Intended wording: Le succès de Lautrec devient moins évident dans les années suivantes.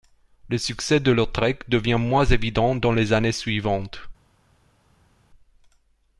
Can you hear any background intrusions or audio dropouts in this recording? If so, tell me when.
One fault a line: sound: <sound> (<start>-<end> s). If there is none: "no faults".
no faults